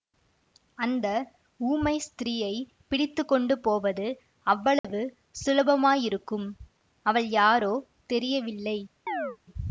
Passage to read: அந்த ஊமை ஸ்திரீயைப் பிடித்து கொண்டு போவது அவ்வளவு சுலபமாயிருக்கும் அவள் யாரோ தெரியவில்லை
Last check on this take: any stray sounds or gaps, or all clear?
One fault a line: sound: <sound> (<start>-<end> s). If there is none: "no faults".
sound: dropout (4.8-4.8 s)
sound: chirp (9.1-9.4 s)